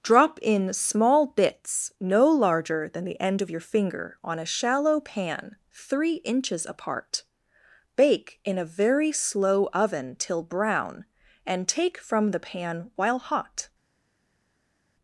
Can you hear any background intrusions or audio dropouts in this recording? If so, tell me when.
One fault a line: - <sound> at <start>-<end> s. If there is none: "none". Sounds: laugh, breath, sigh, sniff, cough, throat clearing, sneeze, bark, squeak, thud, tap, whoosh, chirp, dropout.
none